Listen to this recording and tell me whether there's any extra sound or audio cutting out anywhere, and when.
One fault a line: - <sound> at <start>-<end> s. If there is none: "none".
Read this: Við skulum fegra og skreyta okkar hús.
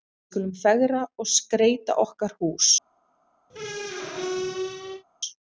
- squeak at 3.5-5.0 s